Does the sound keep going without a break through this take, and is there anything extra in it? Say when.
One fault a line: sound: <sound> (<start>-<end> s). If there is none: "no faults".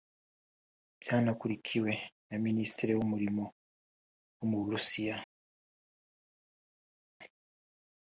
no faults